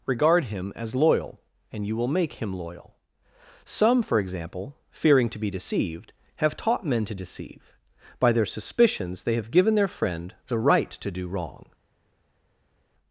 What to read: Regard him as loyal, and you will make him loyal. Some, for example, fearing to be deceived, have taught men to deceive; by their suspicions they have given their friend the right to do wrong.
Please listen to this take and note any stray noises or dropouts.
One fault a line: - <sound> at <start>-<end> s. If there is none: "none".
none